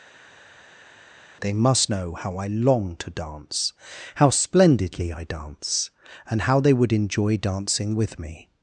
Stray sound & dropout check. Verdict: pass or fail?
pass